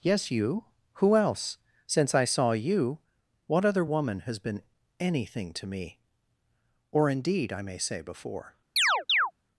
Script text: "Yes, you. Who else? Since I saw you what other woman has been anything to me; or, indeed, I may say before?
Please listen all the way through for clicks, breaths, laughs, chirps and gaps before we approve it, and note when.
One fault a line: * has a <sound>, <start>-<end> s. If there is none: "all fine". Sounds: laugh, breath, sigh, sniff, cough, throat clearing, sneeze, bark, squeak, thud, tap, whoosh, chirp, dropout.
* has a chirp, 8.8-9.3 s